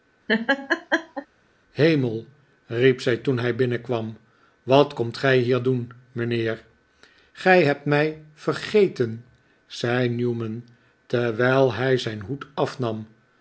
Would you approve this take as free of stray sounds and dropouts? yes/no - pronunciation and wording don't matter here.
no